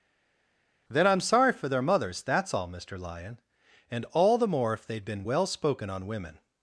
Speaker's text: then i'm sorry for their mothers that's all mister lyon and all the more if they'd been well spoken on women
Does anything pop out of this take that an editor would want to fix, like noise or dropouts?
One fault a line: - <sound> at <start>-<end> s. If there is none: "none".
none